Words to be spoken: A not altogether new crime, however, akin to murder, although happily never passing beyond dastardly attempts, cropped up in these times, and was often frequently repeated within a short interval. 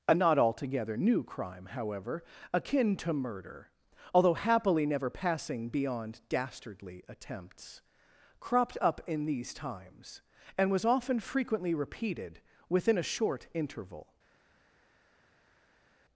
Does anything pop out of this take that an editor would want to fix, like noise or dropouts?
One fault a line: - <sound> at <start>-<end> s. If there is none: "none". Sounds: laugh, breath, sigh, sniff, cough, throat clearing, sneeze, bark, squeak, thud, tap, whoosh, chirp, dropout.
none